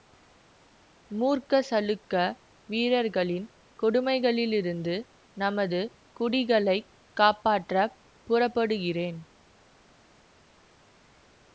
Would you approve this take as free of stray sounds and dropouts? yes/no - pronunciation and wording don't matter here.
yes